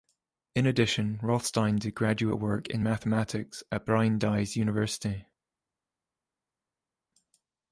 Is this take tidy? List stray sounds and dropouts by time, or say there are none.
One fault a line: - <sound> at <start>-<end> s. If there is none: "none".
none